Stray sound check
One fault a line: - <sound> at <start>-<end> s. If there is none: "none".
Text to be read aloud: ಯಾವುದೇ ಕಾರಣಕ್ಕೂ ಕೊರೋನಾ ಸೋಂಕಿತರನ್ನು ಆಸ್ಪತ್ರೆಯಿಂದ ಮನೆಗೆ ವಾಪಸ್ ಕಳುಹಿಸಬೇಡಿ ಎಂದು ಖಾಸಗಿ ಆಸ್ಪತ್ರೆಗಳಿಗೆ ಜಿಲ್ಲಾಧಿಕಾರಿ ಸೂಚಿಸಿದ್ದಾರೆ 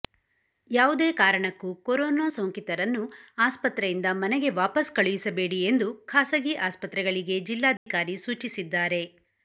- dropout at 7.8-7.9 s